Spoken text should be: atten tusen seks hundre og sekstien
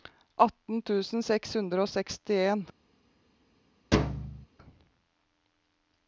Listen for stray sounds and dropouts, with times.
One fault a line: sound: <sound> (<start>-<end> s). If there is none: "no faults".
sound: thud (3.9-4.5 s)